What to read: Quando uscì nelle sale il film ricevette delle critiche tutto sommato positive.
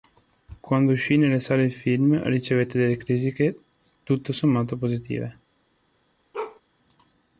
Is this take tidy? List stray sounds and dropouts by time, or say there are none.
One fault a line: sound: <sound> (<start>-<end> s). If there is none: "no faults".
sound: bark (6.3-6.6 s)